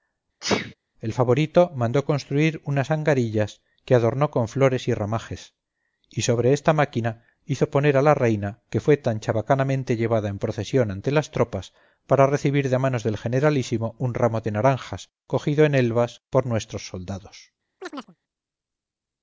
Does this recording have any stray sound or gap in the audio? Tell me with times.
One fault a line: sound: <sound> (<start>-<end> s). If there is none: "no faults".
sound: sneeze (0.4-0.7 s)
sound: chirp (17.8-18.2 s)